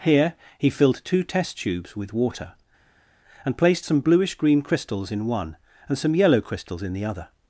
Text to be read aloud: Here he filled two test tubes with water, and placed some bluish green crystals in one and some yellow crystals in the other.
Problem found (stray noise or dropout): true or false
false